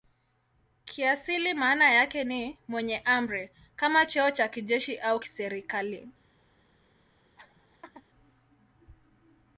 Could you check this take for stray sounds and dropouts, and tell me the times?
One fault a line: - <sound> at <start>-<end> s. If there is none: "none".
- laugh at 7.4-8.1 s